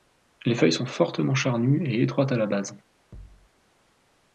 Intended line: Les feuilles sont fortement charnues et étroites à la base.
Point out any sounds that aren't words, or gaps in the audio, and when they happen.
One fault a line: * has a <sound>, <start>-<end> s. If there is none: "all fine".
* has a thud, 3.1-3.5 s